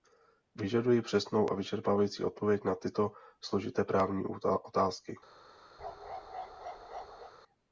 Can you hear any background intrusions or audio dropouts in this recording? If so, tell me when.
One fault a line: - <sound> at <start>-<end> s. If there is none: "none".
- bark at 5.8-7.3 s